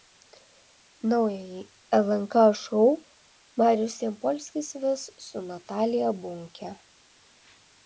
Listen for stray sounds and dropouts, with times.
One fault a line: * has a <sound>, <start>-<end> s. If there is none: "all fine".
all fine